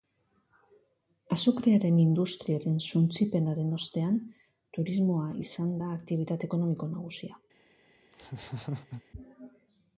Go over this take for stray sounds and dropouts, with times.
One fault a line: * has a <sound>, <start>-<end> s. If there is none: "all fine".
* has a laugh, 8.1-9.0 s